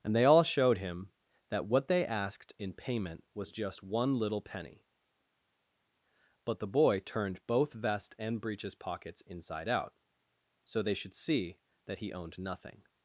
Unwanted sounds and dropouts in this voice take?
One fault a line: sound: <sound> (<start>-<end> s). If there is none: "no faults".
no faults